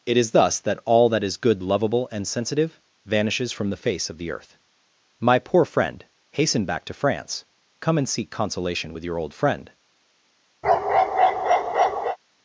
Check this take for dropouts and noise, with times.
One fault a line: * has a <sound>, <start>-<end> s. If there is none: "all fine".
* has a bark, 10.6-12.2 s